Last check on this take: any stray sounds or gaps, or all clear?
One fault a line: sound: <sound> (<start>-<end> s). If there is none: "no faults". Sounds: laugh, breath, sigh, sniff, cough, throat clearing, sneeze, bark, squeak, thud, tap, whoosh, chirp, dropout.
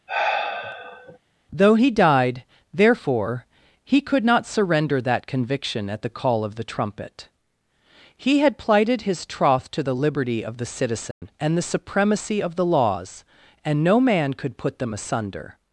sound: sigh (0.1-1.2 s)
sound: dropout (11.1-11.2 s)